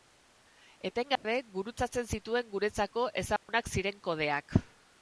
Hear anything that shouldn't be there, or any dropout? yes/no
yes